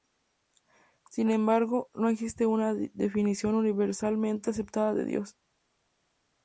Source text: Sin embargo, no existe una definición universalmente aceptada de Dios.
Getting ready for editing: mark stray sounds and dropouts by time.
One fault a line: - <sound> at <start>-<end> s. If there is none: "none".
none